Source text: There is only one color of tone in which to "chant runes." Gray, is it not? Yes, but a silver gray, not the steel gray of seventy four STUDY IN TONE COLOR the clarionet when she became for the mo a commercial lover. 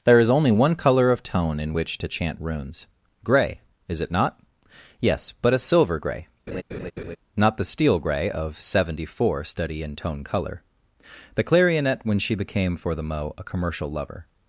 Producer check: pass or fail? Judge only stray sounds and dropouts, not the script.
fail